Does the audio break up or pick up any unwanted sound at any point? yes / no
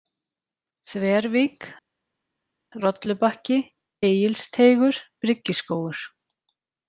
no